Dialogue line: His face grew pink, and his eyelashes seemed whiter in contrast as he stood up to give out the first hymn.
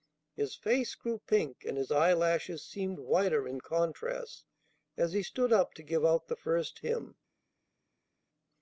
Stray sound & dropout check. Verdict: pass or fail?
pass